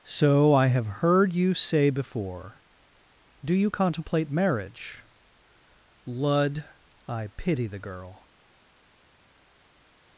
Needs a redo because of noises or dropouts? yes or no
no